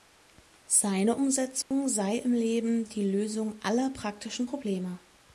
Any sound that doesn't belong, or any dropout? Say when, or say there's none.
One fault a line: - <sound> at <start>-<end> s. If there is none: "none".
- dropout at 1.6-1.7 s